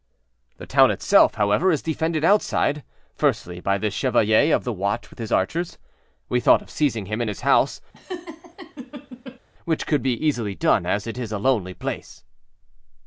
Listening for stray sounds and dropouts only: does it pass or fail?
fail